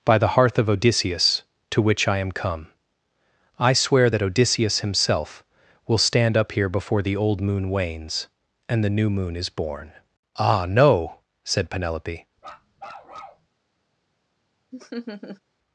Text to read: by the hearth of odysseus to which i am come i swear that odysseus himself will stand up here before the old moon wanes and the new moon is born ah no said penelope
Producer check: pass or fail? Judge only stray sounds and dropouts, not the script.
fail